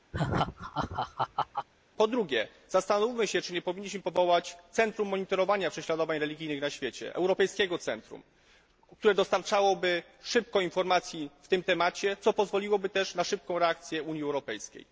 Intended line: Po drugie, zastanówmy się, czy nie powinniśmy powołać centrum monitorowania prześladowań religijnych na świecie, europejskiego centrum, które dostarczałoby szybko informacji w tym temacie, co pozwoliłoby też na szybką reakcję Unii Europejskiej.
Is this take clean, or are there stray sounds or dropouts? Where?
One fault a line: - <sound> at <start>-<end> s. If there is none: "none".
- laugh at 0.1-1.7 s